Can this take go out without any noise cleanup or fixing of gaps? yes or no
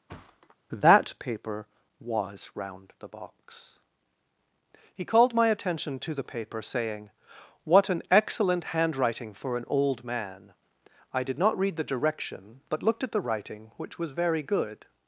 no